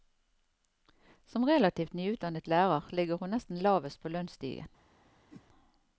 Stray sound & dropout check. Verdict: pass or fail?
fail